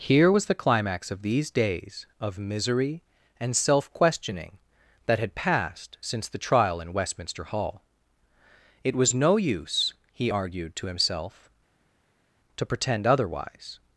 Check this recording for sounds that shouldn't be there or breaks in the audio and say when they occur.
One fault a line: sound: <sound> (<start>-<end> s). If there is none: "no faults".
no faults